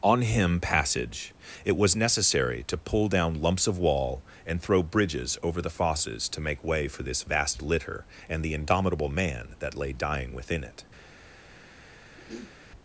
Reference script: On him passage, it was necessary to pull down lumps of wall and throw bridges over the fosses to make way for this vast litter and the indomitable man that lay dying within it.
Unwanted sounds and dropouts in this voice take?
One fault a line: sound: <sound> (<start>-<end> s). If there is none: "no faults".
sound: throat clearing (12.2-12.6 s)